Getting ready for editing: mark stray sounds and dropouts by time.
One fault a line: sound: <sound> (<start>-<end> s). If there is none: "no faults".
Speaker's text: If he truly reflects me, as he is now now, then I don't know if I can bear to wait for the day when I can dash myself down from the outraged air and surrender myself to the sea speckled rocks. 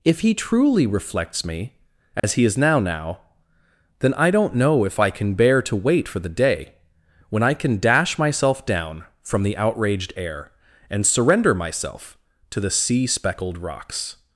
sound: dropout (2.2-2.2 s)